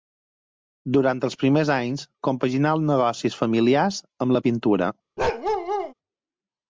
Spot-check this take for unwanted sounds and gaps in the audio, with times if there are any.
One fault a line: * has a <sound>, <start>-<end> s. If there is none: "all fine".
* has a bark, 5.2-5.9 s